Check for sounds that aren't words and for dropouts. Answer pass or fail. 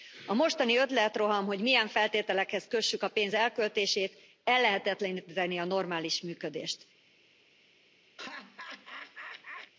fail